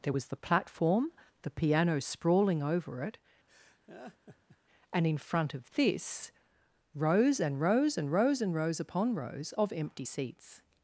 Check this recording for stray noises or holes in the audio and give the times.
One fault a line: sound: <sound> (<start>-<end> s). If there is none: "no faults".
sound: laugh (3.5-4.6 s)